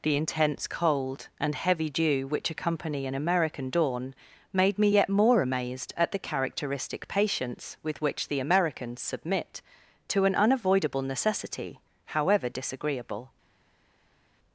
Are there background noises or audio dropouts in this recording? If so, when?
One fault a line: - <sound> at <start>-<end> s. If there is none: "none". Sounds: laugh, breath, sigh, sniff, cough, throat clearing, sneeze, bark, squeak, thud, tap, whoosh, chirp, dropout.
none